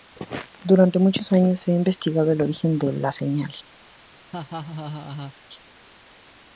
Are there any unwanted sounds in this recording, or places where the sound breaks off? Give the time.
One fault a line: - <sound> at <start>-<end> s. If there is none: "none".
- laugh at 4.3-5.3 s